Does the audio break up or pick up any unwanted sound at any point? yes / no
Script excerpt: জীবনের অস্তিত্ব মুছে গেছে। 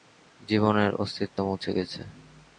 no